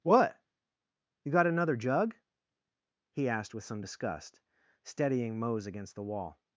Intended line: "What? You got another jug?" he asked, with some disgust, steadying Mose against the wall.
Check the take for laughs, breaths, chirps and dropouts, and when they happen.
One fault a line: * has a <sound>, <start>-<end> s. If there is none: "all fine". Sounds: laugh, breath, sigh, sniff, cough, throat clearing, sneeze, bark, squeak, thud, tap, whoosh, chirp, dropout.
all fine